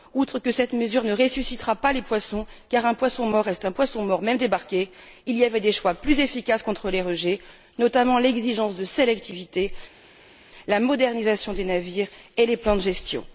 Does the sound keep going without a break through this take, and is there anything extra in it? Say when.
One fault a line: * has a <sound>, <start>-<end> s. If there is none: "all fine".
all fine